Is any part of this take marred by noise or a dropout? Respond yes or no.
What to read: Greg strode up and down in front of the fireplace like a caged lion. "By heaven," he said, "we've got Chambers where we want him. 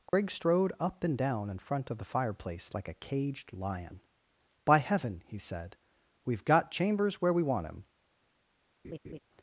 yes